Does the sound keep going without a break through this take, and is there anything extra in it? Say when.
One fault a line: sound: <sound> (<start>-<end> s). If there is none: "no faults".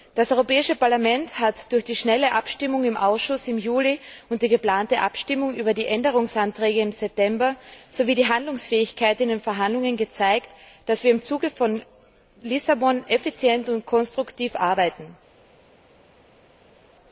no faults